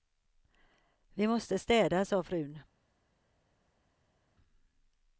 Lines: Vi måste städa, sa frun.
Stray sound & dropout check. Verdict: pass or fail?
pass